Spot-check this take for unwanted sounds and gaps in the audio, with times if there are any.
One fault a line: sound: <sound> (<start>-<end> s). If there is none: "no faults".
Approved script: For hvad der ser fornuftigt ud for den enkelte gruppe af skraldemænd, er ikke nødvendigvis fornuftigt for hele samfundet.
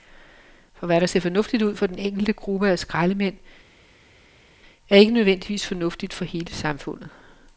no faults